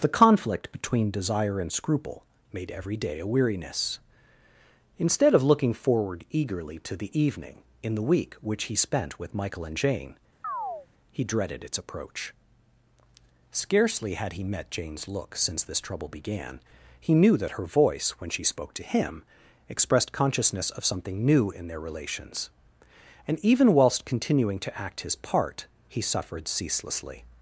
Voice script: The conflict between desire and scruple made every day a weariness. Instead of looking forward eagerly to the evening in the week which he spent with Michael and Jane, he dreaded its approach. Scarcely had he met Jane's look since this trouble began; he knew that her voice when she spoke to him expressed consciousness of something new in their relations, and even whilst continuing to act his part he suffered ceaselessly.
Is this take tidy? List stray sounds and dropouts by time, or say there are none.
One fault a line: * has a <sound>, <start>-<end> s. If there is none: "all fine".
* has a chirp, 10.4-10.9 s